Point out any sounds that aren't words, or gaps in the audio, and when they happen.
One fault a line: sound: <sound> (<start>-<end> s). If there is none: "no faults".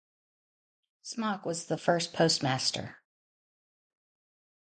no faults